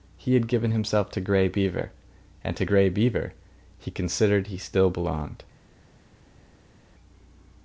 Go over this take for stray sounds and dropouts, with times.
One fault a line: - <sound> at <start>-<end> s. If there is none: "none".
none